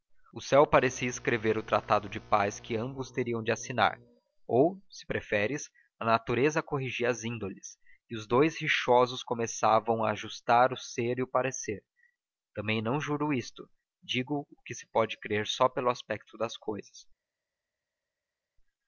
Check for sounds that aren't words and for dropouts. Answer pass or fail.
pass